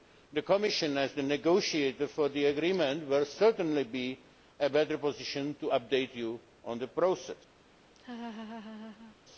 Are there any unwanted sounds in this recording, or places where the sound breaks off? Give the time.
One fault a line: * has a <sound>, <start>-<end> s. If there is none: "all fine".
* has a laugh, 7.9-9.2 s